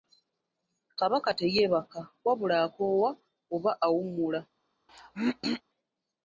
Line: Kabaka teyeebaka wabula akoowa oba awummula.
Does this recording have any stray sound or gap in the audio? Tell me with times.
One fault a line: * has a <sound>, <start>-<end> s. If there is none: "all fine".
* has a throat clearing, 4.9-5.6 s